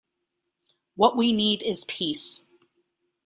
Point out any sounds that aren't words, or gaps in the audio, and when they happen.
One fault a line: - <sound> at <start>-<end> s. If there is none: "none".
none